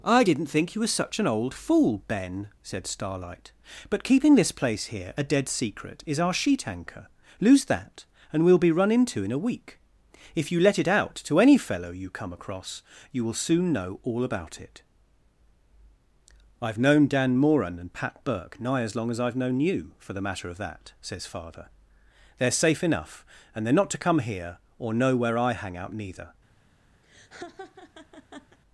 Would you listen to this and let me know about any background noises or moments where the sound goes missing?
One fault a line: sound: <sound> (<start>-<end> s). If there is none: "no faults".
sound: laugh (27.0-28.6 s)